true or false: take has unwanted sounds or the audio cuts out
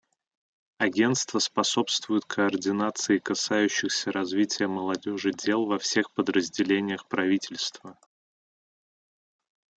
false